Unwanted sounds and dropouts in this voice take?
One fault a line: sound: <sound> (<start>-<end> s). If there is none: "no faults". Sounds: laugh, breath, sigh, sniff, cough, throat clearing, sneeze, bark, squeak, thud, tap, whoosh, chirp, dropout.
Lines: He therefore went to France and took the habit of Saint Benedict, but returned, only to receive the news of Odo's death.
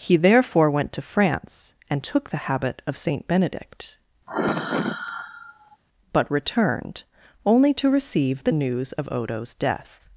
sound: sigh (4.3-5.8 s)